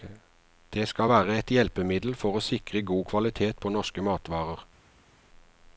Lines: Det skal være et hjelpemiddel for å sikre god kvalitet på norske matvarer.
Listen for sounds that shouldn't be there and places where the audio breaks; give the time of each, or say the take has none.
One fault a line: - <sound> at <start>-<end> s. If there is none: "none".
none